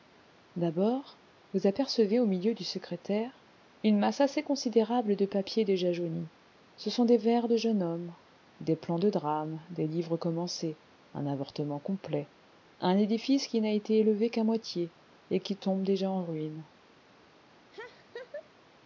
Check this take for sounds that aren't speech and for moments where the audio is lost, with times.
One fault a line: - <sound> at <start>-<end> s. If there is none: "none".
- laugh at 17.7-18.5 s